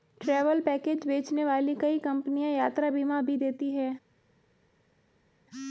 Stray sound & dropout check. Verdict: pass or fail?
pass